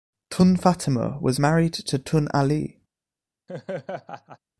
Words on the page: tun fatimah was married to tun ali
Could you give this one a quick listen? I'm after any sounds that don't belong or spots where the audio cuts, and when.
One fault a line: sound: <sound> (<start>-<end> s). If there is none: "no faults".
sound: laugh (3.5-4.4 s)